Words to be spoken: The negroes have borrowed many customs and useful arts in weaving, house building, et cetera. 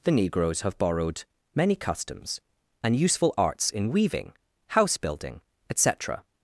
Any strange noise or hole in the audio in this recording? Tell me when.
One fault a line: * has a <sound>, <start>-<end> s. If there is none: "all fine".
all fine